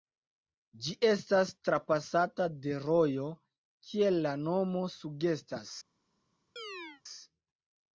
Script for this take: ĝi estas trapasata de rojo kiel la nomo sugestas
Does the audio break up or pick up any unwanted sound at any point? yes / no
yes